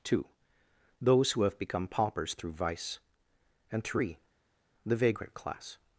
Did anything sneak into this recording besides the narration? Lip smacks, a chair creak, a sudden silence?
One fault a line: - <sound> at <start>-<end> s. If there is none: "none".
none